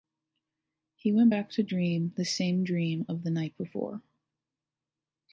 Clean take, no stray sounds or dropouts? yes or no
yes